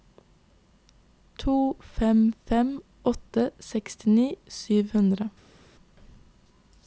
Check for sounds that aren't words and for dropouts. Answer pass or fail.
pass